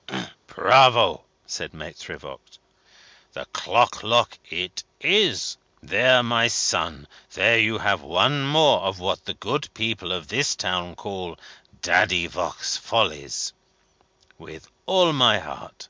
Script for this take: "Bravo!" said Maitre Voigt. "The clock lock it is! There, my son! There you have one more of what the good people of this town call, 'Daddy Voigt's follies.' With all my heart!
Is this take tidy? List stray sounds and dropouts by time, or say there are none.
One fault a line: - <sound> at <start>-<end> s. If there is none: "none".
- throat clearing at 0.1-0.4 s